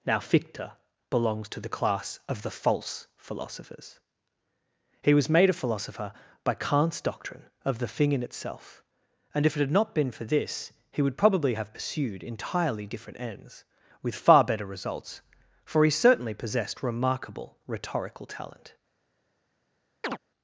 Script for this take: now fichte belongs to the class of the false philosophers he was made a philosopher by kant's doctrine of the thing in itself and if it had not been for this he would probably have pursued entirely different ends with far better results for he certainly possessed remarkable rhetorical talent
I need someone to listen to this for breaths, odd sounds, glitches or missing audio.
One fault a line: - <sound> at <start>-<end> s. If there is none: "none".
- chirp at 20.0-20.2 s